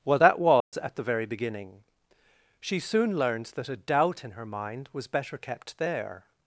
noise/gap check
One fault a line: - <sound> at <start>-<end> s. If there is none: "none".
- dropout at 0.6-0.7 s